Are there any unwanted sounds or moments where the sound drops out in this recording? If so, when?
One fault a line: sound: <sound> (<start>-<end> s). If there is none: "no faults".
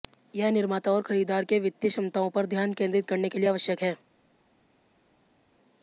no faults